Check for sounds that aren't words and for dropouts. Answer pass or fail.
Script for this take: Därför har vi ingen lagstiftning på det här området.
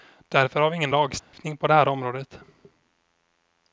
fail